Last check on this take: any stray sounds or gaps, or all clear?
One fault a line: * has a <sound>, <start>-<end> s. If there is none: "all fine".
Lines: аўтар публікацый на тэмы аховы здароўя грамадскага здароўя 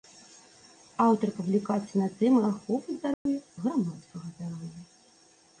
* has a dropout, 3.1-3.3 s